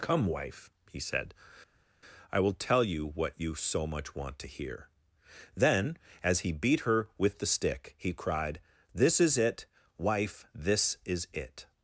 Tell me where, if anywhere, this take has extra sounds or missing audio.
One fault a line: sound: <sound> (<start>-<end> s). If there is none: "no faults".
no faults